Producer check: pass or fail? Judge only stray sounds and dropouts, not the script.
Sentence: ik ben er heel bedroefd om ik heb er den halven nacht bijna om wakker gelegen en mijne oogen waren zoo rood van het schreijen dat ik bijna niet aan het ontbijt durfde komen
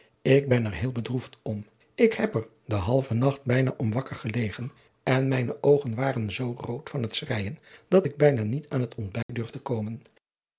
fail